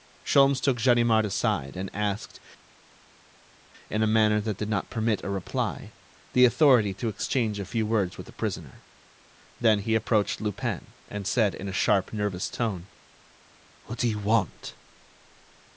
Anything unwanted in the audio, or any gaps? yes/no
no